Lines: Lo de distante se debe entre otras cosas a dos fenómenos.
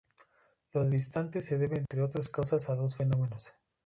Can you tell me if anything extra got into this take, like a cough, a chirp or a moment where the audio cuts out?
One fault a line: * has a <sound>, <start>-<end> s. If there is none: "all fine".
* has a dropout, 1.9-1.9 s